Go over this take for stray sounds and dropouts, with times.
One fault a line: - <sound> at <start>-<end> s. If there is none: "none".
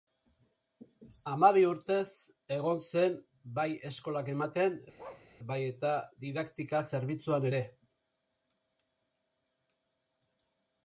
- bark at 5.0-5.3 s